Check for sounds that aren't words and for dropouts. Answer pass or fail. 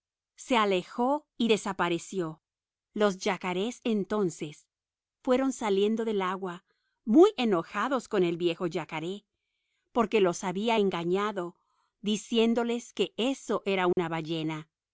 fail